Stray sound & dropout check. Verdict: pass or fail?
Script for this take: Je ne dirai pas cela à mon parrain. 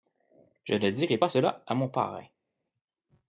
pass